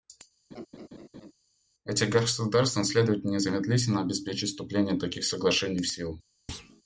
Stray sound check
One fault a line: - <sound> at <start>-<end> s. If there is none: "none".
- laugh at 0.5-1.3 s
- thud at 6.5-6.8 s